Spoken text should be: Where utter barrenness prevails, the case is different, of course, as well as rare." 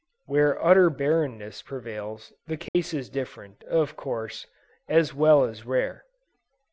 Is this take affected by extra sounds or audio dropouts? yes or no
yes